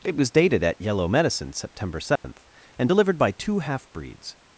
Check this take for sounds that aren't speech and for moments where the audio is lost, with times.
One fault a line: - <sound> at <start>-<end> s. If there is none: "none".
- dropout at 2.2-2.2 s